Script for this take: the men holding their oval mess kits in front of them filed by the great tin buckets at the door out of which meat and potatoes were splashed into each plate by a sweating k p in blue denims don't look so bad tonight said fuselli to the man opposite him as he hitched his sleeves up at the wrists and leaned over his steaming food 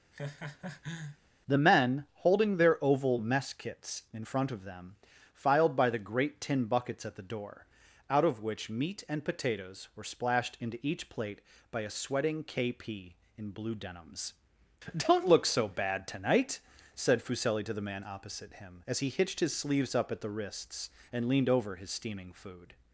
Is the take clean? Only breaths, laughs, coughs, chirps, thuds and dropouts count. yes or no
no